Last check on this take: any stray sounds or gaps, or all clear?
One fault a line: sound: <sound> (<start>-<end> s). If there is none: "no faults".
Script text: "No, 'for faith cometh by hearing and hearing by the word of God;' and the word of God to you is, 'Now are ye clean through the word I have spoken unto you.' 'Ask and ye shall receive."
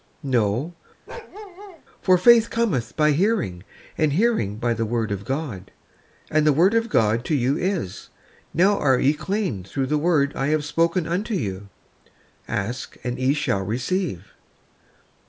sound: bark (1.1-1.8 s)